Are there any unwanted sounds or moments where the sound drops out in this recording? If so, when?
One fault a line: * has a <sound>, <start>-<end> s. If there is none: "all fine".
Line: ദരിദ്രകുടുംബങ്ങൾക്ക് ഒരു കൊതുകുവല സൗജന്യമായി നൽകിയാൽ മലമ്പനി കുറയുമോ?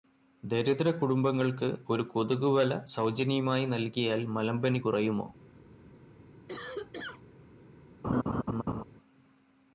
* has a cough, 6.5-7.2 s
* has a laugh, 8.0-8.8 s